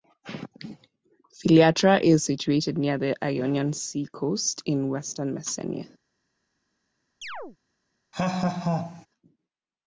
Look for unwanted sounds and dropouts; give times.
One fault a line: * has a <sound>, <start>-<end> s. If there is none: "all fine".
* has a chirp, 7.2-7.6 s
* has a laugh, 8.1-9.1 s